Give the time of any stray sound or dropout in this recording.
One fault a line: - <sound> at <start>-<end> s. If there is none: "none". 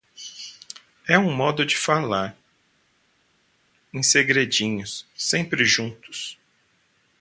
none